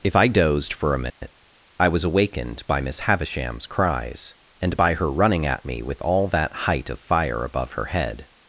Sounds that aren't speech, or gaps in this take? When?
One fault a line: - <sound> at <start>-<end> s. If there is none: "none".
- dropout at 1.1-1.2 s